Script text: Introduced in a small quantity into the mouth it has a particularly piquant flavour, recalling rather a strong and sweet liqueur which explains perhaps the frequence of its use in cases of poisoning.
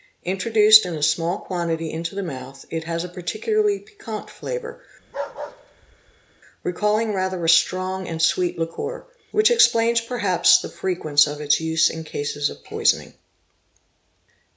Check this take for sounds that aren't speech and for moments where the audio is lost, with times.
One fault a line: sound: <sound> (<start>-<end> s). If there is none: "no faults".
sound: bark (5.0-6.4 s)